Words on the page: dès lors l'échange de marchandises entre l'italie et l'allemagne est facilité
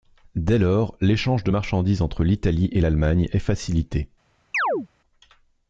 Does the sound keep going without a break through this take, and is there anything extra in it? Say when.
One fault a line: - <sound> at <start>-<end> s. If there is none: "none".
- chirp at 4.5-4.9 s